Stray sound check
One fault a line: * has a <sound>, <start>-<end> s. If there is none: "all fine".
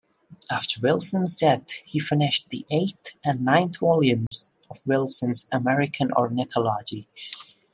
* has a dropout, 4.3-4.3 s